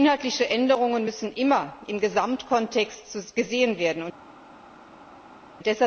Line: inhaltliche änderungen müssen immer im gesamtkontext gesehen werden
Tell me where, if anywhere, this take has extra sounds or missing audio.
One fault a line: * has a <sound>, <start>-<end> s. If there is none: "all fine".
all fine